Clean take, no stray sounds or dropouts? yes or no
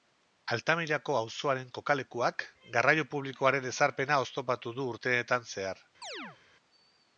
no